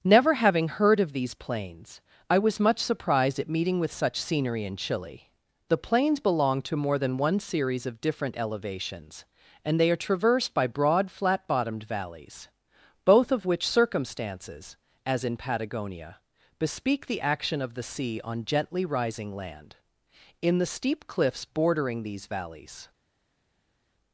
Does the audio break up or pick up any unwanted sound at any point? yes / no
no